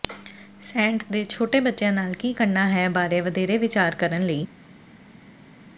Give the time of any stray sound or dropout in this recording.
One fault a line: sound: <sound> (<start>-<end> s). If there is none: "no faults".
no faults